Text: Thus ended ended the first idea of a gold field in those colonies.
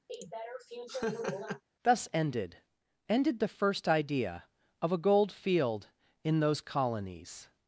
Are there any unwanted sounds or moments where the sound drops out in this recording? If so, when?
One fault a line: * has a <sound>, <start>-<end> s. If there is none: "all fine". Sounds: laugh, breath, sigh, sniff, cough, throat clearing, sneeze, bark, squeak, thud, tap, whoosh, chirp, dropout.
* has a laugh, 0.1-1.6 s